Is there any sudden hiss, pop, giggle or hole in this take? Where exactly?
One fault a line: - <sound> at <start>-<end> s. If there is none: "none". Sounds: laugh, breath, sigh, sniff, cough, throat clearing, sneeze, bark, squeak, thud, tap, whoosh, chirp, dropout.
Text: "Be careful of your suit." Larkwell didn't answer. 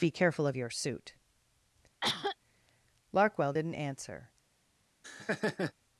- cough at 2.0-2.4 s
- laugh at 5.0-5.7 s